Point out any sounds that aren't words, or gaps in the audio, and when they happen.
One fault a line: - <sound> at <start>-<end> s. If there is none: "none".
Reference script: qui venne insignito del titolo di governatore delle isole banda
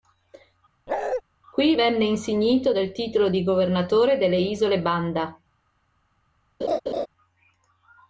- bark at 0.9-1.2 s
- laugh at 6.6-7.1 s